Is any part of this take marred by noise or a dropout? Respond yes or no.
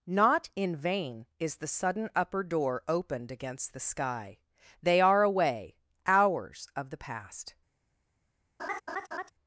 yes